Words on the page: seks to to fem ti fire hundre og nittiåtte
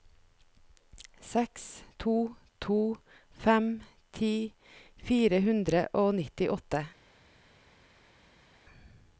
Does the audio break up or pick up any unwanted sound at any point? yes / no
no